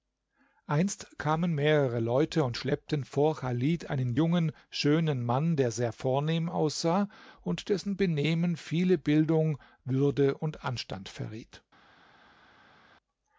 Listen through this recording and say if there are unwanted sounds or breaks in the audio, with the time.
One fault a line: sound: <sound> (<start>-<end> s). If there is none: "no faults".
no faults